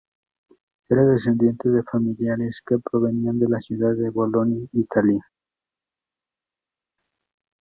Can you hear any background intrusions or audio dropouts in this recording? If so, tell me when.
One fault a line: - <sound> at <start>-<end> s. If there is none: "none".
none